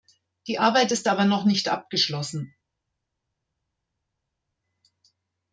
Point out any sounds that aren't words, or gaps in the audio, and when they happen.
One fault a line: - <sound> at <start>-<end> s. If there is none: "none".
none